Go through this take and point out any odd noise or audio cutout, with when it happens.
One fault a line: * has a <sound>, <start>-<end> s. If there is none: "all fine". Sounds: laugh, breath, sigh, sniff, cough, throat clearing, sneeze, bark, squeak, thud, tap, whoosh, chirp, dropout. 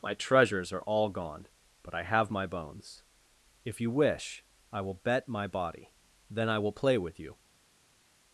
all fine